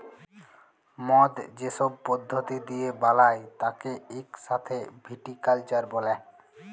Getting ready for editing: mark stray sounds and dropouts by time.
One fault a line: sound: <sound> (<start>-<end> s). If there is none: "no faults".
no faults